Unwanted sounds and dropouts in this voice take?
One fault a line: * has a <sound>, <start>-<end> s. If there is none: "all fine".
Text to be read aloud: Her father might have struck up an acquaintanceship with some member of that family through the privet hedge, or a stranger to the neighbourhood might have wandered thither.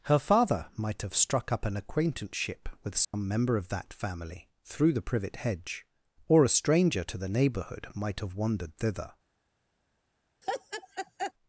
* has a dropout, 3.0-3.1 s
* has a laugh, 10.4-11.3 s